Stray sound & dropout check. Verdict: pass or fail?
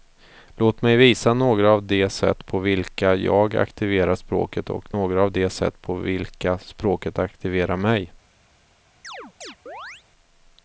fail